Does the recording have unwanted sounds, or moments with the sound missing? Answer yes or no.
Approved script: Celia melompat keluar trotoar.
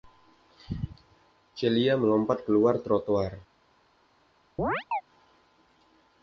yes